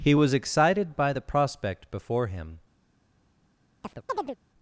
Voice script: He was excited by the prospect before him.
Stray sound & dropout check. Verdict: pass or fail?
fail